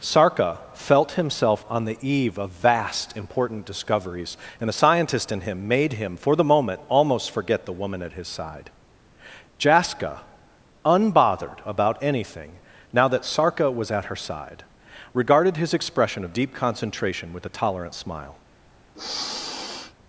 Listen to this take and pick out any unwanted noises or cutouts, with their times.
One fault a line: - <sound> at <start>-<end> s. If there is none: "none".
- sniff at 18.9-19.9 s